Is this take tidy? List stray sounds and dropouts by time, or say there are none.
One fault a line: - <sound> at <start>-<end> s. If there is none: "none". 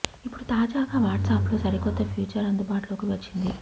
none